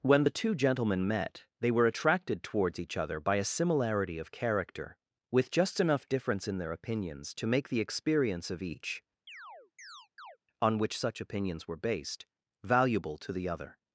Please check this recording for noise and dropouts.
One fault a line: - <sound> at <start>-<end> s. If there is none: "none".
- chirp at 9.3-10.4 s